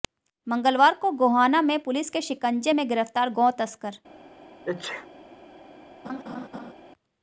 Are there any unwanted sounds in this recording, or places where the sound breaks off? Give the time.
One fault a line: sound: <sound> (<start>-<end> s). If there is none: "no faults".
sound: sneeze (4.7-5.1 s)
sound: laugh (6.0-6.7 s)